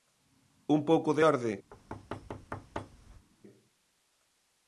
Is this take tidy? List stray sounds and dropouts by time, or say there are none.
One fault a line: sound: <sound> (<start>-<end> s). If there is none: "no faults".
sound: thud (1.7-3.3 s)